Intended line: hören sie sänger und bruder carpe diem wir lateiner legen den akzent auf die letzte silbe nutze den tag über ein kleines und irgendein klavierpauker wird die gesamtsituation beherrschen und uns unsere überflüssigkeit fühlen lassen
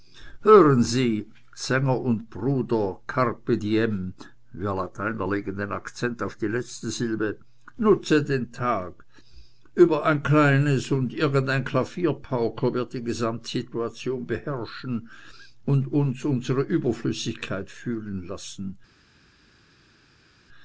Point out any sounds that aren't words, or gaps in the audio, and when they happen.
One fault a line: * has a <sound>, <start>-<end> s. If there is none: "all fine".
all fine